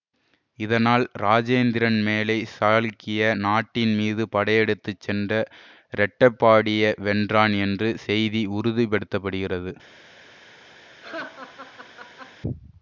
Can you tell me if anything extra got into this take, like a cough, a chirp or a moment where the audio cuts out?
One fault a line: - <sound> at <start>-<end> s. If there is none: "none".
- laugh at 11.0-12.4 s